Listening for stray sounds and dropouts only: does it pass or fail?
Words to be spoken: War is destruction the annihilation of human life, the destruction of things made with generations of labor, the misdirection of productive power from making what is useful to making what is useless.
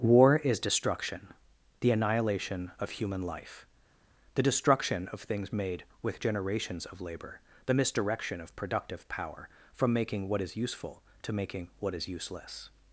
pass